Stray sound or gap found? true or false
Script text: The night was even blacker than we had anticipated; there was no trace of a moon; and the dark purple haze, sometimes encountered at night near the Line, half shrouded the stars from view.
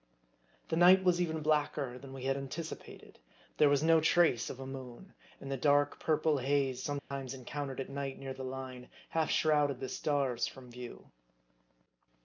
true